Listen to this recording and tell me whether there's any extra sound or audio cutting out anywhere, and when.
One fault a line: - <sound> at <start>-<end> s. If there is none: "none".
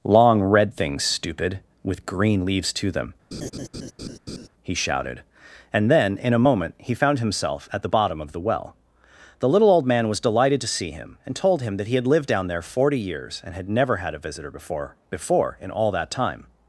- laugh at 3.3-4.5 s